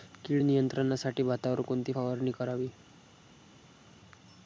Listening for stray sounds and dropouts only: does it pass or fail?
pass